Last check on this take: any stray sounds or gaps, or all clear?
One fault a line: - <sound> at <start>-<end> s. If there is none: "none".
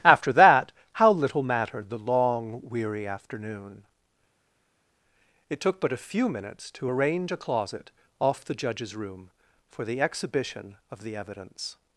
none